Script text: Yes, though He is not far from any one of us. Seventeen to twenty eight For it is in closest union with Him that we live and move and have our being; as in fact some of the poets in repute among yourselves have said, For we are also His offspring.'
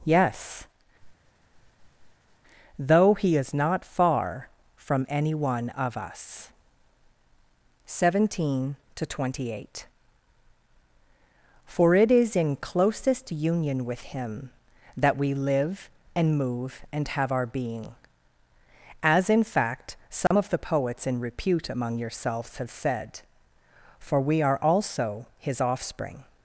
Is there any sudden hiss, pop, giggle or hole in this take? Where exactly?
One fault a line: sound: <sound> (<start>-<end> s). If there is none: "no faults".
sound: sniff (1.0-2.4 s)
sound: dropout (20.3-20.3 s)